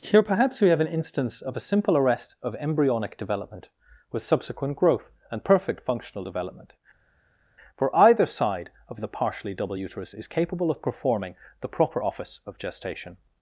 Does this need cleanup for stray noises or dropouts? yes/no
no